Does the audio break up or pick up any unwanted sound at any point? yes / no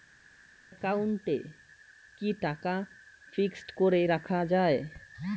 no